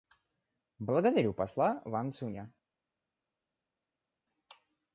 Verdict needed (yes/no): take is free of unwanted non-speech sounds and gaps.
yes